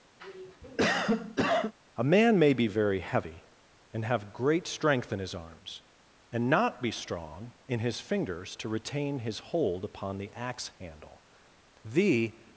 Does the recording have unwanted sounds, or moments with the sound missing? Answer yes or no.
yes